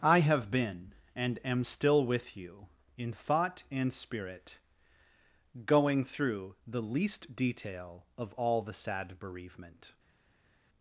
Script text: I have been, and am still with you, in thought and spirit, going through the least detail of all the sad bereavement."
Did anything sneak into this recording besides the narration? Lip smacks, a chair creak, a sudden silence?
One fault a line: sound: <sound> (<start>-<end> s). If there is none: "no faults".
no faults